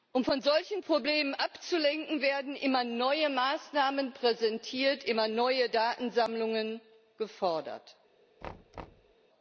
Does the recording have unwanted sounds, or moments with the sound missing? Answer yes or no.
yes